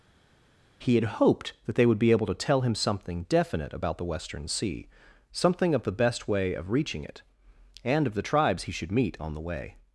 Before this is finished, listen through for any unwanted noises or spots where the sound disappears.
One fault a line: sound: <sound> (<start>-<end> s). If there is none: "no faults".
no faults